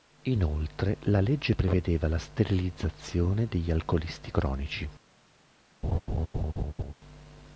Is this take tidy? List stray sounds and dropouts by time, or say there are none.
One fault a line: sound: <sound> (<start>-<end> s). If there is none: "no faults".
sound: laugh (5.8-6.9 s)